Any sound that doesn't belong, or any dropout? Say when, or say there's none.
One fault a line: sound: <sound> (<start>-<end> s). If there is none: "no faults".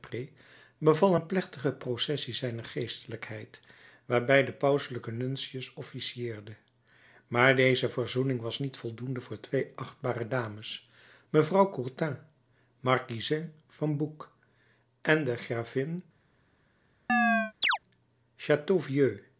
sound: chirp (17.1-17.8 s)